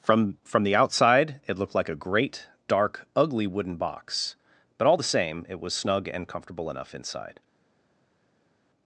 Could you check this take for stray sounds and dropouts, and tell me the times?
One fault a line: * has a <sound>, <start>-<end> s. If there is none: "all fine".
all fine